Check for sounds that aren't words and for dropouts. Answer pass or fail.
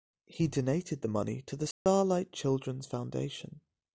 fail